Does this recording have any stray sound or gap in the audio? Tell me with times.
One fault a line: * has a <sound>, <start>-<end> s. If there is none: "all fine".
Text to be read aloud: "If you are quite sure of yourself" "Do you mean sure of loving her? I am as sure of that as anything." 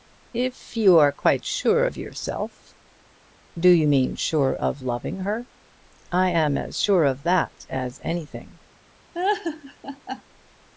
* has a laugh, 9.1-10.2 s